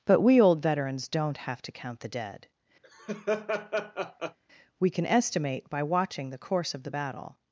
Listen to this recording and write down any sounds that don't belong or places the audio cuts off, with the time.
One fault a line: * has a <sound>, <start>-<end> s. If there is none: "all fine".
* has a laugh, 2.8-4.4 s